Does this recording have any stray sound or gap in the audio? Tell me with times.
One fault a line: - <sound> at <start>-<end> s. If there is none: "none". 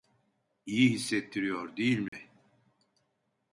- dropout at 2.1-2.1 s